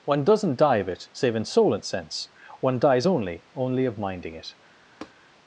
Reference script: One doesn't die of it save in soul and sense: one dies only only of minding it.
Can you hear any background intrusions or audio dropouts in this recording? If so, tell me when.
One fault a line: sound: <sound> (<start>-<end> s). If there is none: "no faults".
sound: tap (5.0-5.1 s)